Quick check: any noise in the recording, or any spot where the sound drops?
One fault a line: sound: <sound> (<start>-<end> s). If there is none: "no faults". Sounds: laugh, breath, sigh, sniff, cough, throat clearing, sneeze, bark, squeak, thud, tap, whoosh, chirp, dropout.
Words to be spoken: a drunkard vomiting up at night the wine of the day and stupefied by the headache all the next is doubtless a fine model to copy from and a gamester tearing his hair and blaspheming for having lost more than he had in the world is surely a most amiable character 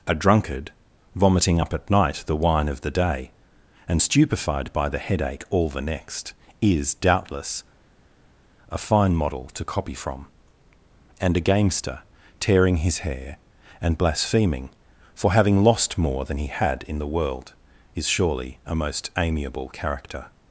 no faults